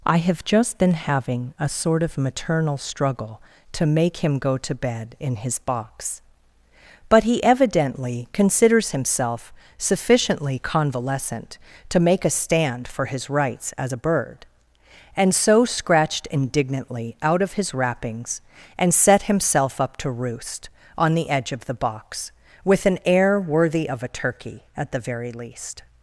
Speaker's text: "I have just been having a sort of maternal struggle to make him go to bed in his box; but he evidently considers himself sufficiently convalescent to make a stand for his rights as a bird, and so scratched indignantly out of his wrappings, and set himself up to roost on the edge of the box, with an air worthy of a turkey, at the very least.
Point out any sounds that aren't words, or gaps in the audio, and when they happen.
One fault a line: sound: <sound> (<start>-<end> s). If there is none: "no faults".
no faults